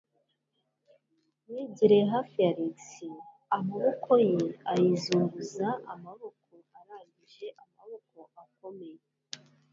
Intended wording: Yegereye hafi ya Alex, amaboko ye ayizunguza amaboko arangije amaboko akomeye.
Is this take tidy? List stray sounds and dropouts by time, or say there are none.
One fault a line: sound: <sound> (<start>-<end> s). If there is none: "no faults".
no faults